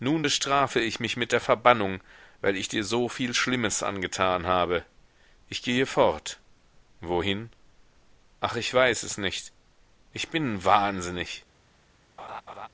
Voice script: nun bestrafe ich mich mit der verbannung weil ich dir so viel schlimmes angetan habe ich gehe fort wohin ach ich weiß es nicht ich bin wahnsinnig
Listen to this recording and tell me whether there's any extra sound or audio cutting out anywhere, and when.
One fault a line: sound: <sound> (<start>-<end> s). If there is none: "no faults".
sound: laugh (12.2-12.7 s)